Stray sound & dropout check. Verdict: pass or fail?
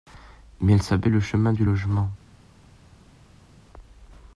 pass